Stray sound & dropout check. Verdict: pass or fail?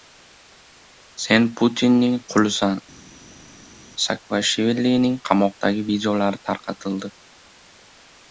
pass